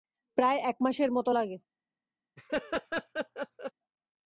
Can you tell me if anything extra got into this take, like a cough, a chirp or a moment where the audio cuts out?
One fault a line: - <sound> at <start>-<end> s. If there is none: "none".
- laugh at 2.4-3.7 s